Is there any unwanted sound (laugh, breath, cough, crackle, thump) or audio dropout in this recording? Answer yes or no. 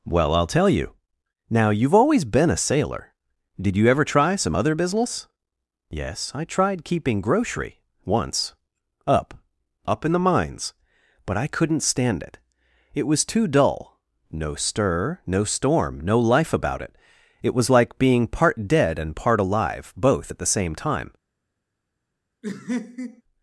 yes